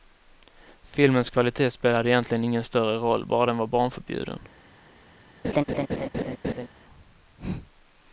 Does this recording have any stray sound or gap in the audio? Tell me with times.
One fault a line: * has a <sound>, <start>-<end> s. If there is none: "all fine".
* has a laugh, 5.4-6.7 s